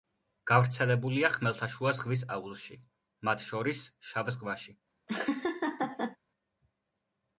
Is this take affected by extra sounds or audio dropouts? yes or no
yes